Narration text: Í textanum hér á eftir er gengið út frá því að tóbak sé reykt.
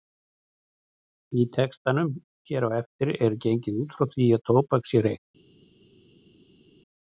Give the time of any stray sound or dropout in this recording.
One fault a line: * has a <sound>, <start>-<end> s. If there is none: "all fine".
all fine